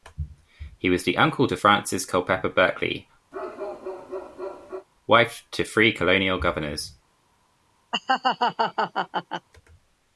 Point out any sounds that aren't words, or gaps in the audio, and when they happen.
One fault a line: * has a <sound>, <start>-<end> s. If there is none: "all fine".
* has a bark, 3.3-4.9 s
* has a laugh, 7.9-9.5 s